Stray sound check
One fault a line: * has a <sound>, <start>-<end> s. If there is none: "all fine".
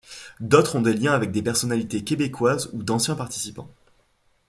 all fine